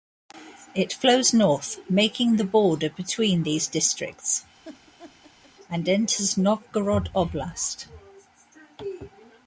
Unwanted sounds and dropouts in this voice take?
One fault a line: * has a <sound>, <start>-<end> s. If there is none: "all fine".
* has a laugh, 4.6-5.5 s